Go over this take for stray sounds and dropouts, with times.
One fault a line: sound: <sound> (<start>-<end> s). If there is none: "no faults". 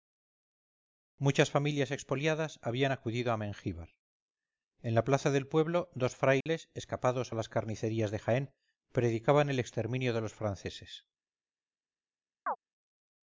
sound: dropout (6.4-6.5 s)
sound: chirp (12.5-12.6 s)